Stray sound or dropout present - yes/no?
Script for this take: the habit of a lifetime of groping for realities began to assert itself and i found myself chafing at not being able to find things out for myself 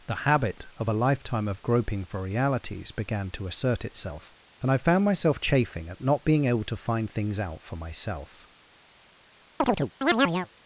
yes